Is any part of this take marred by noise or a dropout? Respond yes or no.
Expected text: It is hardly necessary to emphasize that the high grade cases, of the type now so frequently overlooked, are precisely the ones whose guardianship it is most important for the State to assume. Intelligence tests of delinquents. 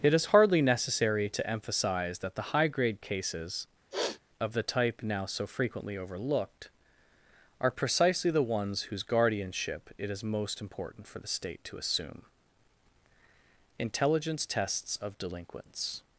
yes